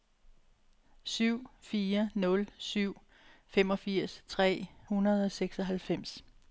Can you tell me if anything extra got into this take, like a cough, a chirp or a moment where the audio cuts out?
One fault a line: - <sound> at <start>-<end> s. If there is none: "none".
none